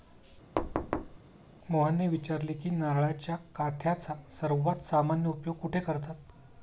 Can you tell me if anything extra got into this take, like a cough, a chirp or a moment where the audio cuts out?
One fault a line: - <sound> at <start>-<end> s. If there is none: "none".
- thud at 0.6-1.2 s